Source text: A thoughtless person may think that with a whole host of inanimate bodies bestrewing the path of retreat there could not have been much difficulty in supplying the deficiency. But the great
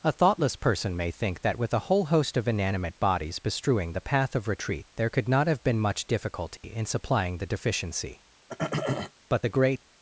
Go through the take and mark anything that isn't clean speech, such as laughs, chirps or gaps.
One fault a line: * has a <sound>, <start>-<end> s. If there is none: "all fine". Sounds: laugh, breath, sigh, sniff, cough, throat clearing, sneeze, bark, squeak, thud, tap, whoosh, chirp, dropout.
* has a dropout, 6.6-6.6 s
* has a throat clearing, 8.5-9.1 s